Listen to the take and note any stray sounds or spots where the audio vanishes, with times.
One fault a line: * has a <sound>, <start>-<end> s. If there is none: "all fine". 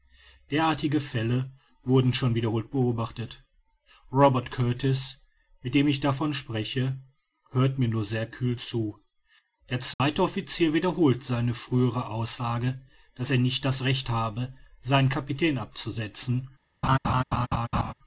* has a dropout, 9.9-10.0 s
* has a laugh, 16.8-17.9 s